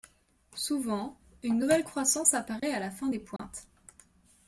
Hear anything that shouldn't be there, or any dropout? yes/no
yes